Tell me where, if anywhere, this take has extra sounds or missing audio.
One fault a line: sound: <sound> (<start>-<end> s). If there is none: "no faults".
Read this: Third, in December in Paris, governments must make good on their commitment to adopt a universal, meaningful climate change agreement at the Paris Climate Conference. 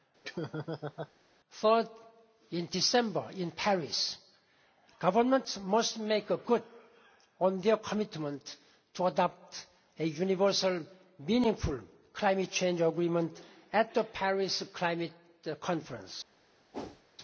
sound: laugh (0.2-1.1 s)
sound: whoosh (16.7-17.0 s)